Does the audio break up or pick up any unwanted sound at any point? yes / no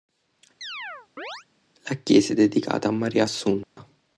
yes